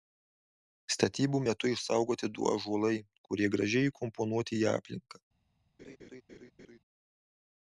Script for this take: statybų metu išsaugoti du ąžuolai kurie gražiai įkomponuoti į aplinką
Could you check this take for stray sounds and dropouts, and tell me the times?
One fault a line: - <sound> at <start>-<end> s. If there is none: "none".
- laugh at 5.8-6.8 s